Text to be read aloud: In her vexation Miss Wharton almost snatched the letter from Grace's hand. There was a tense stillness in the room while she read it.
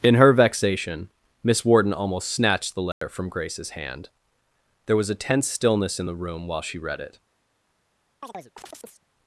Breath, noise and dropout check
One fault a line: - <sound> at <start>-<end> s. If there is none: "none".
- dropout at 2.9-3.0 s
- chirp at 8.2-9.1 s